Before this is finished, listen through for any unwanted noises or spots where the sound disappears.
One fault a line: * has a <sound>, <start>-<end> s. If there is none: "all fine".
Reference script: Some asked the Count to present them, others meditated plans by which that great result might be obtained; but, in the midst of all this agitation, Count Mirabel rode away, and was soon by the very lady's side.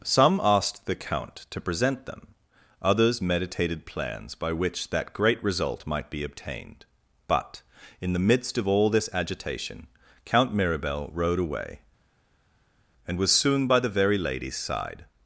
all fine